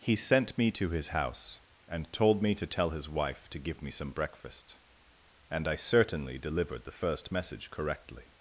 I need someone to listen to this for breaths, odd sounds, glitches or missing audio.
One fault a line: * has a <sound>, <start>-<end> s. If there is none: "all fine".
all fine